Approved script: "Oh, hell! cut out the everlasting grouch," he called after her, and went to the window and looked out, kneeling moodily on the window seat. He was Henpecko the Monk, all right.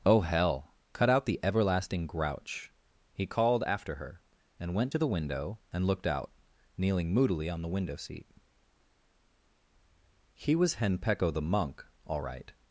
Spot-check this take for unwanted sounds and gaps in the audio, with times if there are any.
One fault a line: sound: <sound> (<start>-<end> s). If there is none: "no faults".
no faults